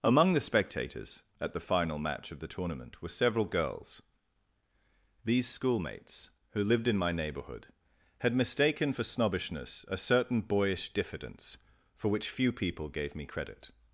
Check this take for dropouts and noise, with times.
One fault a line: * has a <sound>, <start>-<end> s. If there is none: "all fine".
all fine